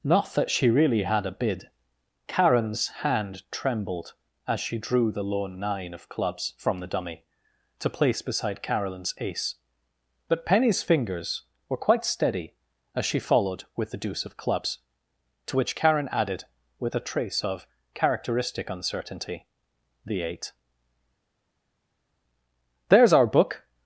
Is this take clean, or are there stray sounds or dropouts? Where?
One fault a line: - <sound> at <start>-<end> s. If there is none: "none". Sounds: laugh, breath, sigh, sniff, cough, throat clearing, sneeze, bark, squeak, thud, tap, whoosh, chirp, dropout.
none